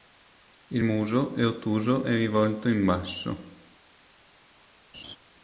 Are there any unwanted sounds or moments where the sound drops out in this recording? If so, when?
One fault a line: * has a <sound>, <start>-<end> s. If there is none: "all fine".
* has a laugh, 4.9-5.2 s